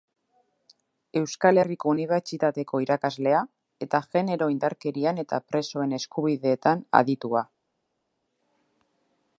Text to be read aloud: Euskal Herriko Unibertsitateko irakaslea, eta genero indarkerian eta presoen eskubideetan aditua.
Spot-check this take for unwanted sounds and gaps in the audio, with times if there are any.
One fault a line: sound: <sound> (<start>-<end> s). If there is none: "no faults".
no faults